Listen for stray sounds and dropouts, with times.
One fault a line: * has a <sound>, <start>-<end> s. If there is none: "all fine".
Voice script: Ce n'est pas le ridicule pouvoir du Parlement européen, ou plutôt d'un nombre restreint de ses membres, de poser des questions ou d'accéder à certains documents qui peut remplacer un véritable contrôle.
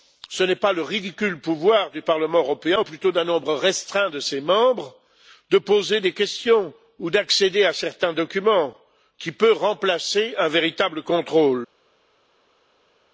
all fine